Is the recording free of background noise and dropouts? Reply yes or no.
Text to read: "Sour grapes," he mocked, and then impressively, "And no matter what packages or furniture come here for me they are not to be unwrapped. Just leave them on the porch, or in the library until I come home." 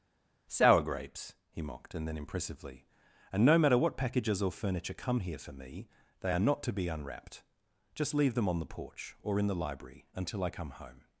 yes